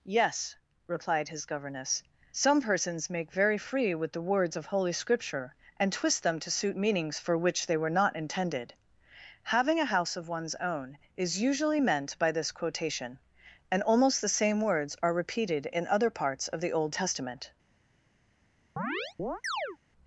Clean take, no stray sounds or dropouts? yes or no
no